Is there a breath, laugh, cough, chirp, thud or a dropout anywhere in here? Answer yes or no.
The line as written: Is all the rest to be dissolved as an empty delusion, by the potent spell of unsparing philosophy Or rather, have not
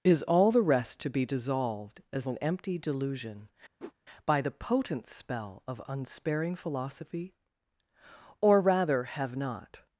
yes